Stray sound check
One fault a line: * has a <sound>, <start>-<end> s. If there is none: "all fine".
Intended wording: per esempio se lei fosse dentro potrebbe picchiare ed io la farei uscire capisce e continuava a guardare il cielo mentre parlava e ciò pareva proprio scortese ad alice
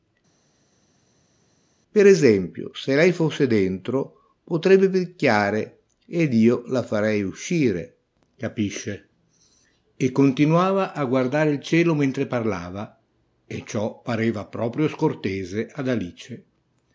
all fine